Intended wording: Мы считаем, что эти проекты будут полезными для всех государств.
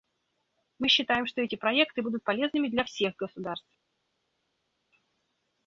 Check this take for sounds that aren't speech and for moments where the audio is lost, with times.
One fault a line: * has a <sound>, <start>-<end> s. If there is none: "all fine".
all fine